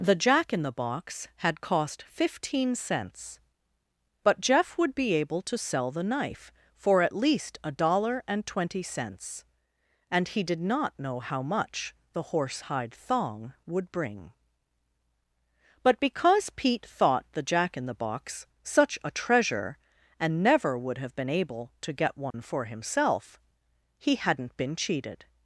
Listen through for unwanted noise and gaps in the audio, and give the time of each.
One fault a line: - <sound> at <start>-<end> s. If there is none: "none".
- dropout at 22.3-22.3 s